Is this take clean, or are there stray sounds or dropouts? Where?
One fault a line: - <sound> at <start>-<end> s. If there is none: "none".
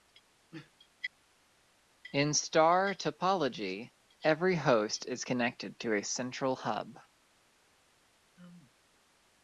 none